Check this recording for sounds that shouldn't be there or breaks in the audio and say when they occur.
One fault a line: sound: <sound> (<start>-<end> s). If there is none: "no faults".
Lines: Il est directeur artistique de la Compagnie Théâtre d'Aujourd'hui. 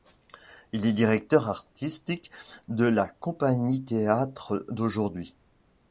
no faults